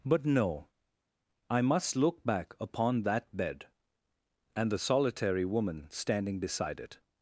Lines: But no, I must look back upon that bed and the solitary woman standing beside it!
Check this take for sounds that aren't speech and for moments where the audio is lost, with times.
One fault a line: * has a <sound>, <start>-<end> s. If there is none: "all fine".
all fine